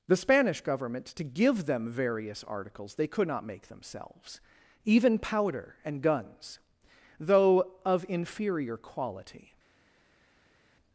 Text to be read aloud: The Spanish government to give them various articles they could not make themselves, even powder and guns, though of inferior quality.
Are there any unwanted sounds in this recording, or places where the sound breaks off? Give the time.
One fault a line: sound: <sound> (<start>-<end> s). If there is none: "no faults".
no faults